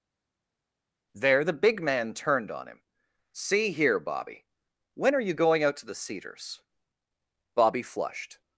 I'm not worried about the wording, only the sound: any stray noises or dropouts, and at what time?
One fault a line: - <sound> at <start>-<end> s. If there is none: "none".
none